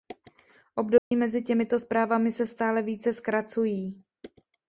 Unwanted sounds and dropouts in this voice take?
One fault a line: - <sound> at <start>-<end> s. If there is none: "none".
- dropout at 1.0-1.1 s